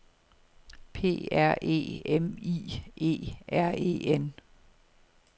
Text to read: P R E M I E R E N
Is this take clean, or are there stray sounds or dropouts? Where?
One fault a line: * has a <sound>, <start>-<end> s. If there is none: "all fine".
all fine